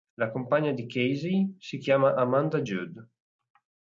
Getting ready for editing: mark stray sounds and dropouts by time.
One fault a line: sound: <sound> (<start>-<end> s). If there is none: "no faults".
no faults